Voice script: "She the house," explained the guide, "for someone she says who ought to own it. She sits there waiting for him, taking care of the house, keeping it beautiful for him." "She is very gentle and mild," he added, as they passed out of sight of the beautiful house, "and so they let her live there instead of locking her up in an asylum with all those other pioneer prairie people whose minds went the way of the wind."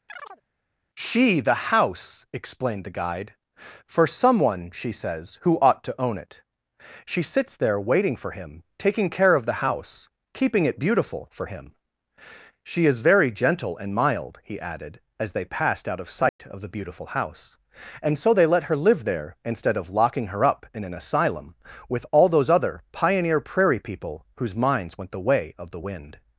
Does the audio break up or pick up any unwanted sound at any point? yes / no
yes